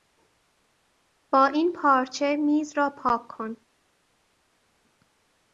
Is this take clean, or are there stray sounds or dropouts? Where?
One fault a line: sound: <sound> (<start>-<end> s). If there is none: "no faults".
no faults